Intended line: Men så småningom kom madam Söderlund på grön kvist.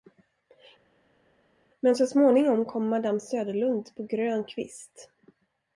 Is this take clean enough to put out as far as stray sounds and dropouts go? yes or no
yes